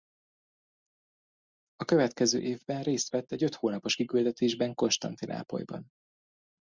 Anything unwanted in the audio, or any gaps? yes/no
no